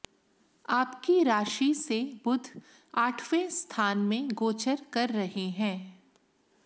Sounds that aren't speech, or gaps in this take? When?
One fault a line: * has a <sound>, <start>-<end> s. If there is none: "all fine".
all fine